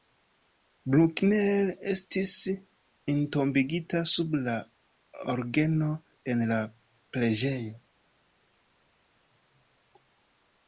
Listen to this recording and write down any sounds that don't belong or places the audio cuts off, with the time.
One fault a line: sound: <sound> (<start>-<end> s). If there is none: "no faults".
no faults